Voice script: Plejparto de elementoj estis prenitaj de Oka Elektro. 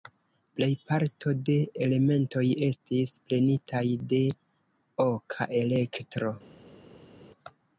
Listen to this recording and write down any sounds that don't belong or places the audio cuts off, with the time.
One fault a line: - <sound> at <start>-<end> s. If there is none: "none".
none